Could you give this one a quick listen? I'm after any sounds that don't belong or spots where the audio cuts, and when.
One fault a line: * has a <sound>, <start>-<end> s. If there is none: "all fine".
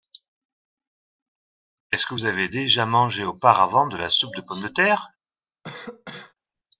* has a cough, 5.6-6.3 s